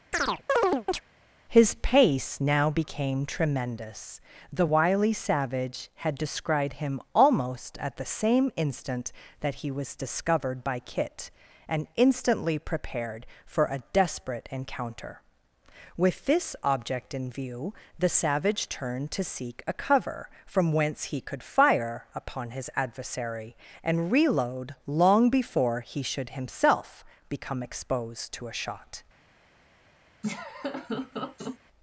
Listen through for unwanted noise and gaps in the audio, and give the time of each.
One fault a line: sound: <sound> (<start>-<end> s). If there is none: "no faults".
sound: chirp (0.1-1.0 s)
sound: laugh (30.2-31.6 s)